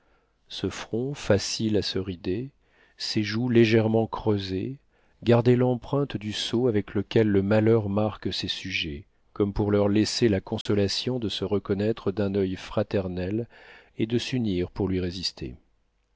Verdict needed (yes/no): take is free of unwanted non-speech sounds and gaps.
no